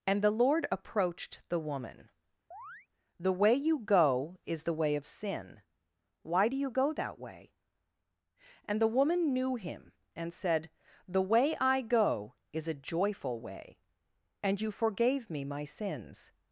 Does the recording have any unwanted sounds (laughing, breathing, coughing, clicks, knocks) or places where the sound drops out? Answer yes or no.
yes